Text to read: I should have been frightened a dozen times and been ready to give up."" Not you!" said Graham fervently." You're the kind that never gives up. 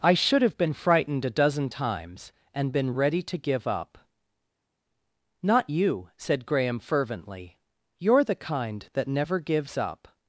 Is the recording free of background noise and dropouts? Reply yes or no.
yes